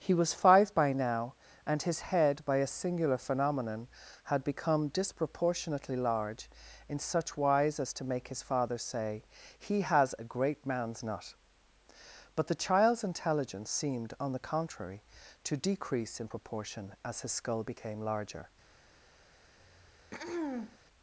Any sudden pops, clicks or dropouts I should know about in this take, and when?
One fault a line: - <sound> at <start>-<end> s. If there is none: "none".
- throat clearing at 19.6-20.8 s